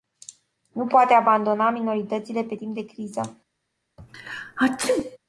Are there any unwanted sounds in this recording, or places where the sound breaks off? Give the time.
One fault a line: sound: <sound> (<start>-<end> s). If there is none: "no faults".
sound: sneeze (4.0-5.2 s)